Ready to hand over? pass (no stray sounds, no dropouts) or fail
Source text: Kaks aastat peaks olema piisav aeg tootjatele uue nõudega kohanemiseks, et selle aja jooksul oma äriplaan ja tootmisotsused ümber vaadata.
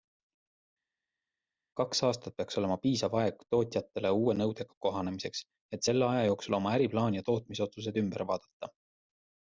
pass